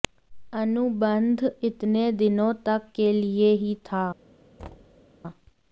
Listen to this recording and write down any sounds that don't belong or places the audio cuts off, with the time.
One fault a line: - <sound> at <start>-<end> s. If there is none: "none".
- thud at 4.6-5.1 s